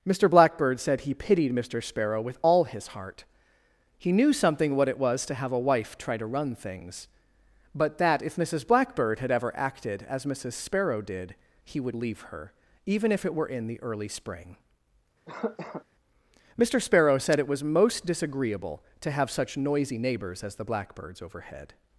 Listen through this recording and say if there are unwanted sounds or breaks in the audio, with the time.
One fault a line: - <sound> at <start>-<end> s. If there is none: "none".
- cough at 15.3-15.8 s